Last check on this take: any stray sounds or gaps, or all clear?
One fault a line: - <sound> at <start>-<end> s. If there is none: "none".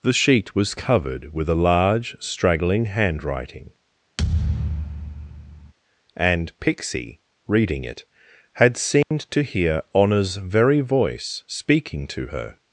- thud at 4.2-5.7 s
- dropout at 9.0-9.1 s